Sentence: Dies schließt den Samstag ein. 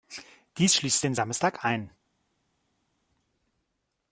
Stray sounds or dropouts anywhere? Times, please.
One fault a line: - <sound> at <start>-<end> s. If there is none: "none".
none